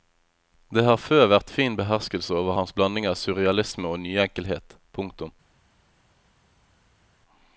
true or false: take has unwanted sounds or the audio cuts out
false